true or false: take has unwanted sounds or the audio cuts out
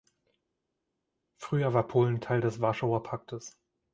false